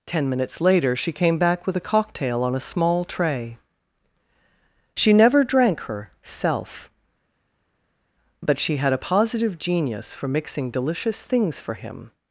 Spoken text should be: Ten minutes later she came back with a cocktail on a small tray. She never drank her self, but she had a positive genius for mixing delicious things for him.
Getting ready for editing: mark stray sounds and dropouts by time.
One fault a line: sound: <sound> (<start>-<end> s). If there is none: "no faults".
no faults